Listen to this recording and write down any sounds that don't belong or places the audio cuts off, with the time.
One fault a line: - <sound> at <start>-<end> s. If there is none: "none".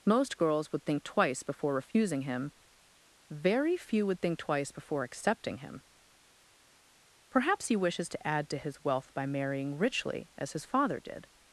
none